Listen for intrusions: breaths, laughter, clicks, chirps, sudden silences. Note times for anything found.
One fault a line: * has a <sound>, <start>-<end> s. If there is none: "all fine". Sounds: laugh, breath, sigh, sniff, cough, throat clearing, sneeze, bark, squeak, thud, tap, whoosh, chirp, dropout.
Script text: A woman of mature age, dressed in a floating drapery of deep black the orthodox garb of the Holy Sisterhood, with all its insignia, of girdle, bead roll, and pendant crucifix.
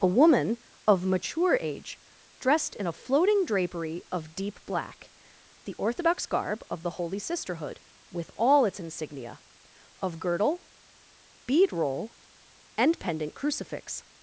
all fine